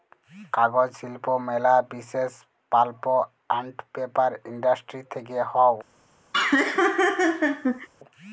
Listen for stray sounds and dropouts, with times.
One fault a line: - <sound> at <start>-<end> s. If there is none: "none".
- laugh at 6.3-7.9 s